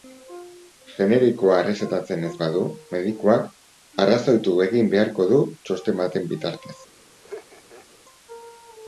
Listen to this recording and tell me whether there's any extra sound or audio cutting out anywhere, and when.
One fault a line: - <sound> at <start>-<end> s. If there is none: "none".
- laugh at 7.2-8.0 s